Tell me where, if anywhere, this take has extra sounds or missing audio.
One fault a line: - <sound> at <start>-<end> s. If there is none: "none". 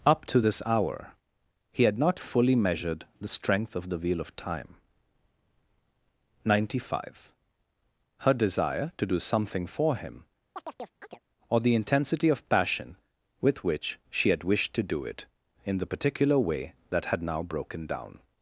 - chirp at 10.6-11.2 s